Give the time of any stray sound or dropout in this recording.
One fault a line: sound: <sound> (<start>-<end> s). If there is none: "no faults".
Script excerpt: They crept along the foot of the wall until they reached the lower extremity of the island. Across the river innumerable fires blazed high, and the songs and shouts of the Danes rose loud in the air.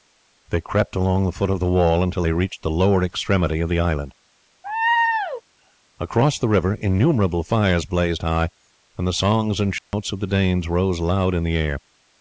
sound: laugh (4.6-5.4 s)
sound: dropout (9.8-9.9 s)